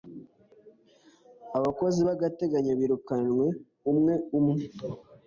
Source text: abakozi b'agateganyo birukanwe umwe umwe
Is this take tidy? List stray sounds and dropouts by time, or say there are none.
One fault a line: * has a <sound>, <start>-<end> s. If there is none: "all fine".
all fine